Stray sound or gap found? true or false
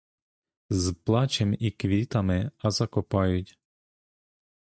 false